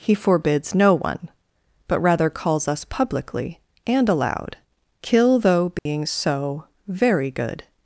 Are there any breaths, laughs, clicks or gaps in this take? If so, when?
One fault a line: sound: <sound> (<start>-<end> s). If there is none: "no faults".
sound: dropout (5.8-5.9 s)